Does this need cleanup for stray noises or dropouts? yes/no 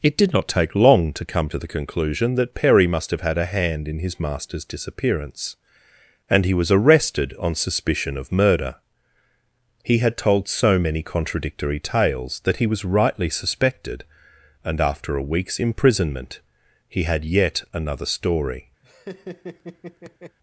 yes